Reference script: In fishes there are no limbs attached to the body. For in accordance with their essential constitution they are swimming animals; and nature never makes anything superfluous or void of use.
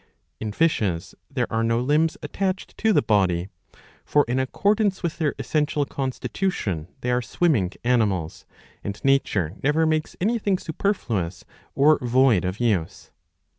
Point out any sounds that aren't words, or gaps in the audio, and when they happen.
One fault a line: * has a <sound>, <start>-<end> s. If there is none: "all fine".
all fine